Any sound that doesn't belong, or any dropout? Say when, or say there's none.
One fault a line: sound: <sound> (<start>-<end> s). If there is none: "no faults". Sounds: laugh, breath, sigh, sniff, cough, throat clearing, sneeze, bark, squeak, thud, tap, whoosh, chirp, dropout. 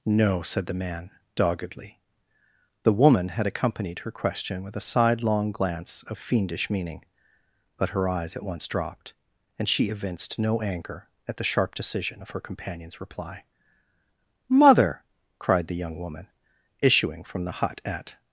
no faults